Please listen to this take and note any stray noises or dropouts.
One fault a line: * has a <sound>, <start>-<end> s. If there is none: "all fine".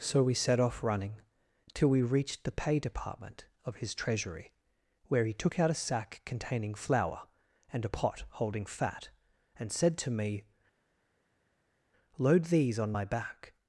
all fine